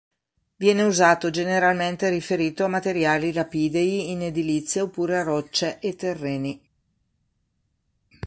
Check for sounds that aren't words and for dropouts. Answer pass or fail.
pass